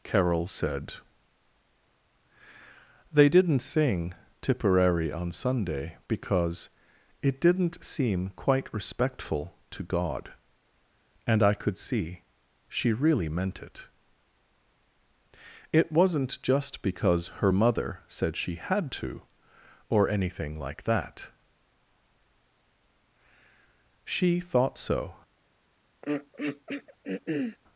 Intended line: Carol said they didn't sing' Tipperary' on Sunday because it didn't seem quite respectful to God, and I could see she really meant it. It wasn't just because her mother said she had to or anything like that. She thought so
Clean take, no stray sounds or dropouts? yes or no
no